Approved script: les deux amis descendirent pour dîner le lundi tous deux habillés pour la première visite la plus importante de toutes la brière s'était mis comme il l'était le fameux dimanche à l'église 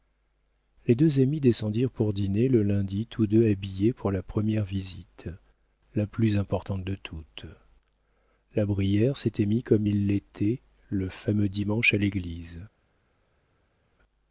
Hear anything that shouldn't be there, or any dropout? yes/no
no